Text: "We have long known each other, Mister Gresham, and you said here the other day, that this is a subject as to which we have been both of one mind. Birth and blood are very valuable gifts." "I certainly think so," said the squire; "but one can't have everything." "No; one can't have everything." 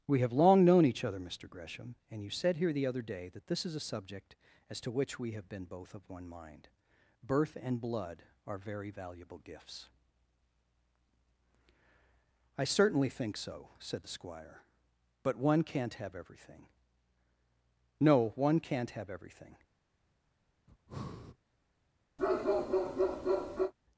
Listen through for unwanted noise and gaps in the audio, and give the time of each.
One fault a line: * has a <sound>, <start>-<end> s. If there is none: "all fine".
* has a breath, 20.7-21.4 s
* has a bark, 22.2-23.7 s